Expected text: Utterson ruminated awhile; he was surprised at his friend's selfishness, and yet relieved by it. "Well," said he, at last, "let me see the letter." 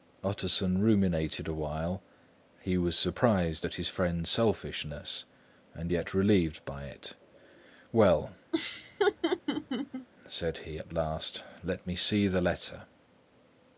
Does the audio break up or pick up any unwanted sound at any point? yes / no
yes